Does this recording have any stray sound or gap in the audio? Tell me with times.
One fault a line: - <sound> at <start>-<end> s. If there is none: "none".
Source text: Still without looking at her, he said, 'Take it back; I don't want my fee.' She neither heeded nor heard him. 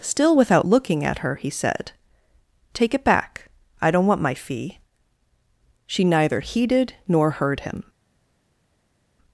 none